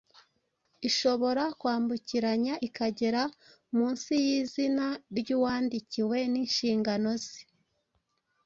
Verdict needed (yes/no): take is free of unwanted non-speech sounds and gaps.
yes